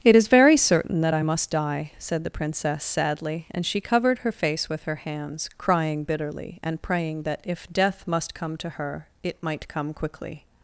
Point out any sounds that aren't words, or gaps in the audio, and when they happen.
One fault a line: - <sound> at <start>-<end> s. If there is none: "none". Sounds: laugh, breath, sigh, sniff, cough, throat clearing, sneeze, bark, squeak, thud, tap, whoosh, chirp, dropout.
none